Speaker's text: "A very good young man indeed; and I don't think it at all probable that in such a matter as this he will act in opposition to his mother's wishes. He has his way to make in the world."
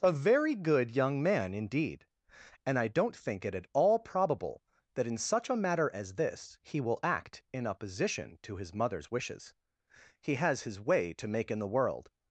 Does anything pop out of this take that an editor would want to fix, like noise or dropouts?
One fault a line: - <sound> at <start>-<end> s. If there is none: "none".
none